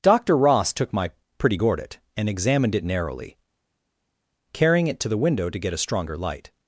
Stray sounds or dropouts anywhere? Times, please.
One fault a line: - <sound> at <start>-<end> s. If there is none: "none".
none